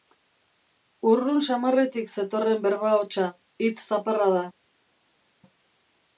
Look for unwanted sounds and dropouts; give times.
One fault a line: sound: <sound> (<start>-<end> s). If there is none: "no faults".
no faults